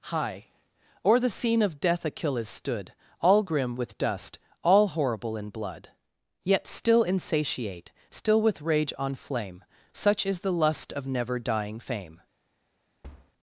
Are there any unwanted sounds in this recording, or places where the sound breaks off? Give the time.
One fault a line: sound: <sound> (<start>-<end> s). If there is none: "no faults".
sound: thud (13.0-13.3 s)